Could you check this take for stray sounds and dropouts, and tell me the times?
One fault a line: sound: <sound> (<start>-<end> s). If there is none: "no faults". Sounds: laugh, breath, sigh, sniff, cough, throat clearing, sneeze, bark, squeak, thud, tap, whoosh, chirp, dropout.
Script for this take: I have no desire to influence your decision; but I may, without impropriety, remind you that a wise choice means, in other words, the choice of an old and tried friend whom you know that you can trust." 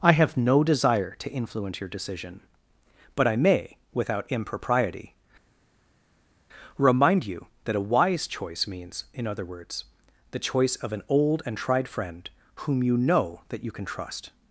no faults